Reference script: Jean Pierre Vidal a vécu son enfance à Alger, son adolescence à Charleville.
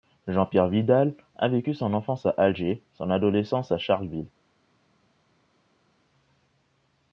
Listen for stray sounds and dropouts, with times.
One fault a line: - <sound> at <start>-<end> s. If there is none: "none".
none